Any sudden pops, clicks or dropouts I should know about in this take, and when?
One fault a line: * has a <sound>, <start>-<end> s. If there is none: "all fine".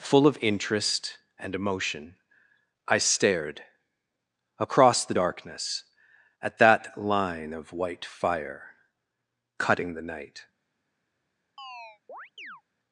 * has a chirp, 11.6-12.6 s